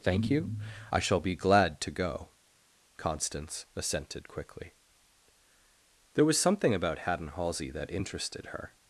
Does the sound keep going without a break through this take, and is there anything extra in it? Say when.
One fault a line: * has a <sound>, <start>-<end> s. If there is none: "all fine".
all fine